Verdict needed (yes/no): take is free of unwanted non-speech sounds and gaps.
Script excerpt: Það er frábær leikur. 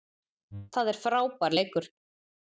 yes